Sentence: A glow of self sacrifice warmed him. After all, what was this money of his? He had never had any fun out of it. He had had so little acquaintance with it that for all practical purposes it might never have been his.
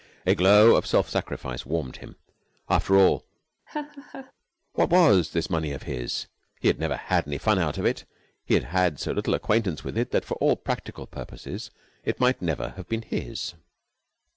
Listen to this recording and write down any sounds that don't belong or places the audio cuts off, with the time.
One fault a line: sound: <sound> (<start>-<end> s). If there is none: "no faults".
sound: laugh (3.7-4.3 s)